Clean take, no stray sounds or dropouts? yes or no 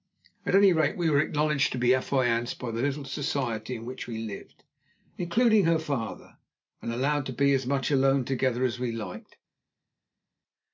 yes